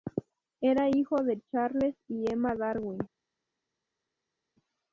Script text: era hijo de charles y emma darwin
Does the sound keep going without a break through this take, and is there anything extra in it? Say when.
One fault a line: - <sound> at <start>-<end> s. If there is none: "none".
none